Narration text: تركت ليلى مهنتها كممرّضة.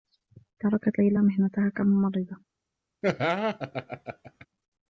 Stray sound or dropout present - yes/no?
yes